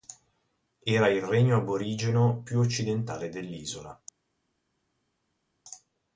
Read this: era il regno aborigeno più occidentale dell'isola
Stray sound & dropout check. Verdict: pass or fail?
pass